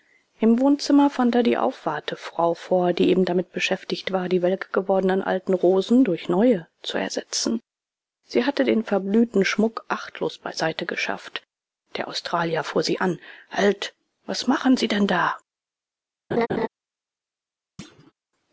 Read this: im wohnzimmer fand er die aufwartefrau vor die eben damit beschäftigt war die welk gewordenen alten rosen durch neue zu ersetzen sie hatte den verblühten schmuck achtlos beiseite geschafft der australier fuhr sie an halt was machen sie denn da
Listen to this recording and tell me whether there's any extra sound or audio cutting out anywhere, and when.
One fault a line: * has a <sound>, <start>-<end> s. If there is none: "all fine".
* has a laugh, 16.3-16.7 s
* has a thud, 17.8-18.1 s